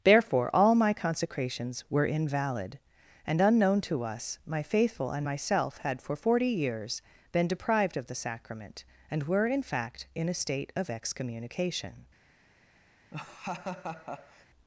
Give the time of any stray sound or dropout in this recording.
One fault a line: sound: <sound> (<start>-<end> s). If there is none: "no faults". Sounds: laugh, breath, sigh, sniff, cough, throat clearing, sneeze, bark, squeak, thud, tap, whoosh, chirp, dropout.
sound: laugh (13.1-14.5 s)